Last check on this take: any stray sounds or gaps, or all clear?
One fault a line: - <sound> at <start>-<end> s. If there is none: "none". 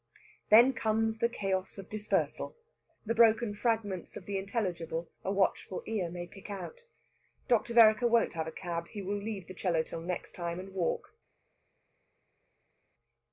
none